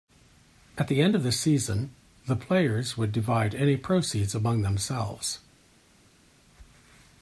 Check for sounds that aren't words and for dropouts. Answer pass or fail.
pass